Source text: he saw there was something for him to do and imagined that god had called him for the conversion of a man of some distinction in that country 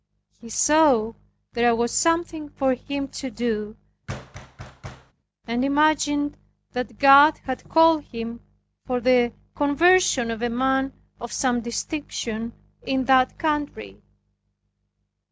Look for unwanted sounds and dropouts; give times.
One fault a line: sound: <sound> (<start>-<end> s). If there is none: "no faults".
sound: thud (4.1-5.1 s)